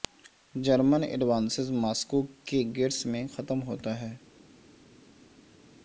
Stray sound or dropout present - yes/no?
no